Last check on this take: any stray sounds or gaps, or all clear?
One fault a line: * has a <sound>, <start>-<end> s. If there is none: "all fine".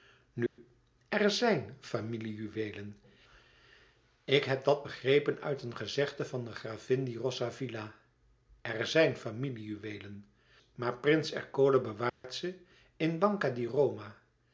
* has a dropout, 0.5-0.6 s
* has a dropout, 12.1-12.2 s